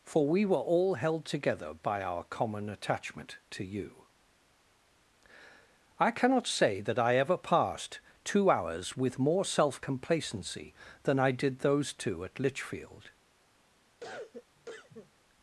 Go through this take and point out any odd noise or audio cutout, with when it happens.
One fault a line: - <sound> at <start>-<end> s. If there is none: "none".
- cough at 14.0-15.1 s